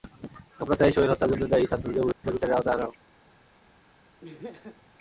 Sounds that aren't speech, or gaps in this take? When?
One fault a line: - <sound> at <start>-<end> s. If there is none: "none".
- dropout at 2.1-2.2 s
- laugh at 4.2-4.8 s